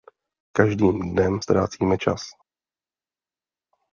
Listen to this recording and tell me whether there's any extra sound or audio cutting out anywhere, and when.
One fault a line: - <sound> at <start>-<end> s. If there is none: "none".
none